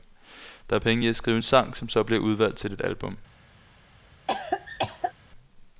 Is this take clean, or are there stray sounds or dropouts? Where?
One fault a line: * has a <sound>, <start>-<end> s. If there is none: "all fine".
* has a cough, 4.3-5.1 s